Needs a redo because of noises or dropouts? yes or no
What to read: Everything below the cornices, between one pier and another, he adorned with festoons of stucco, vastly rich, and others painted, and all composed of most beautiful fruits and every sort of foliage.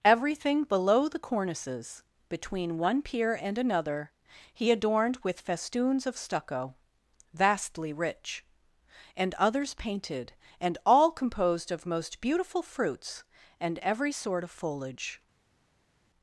no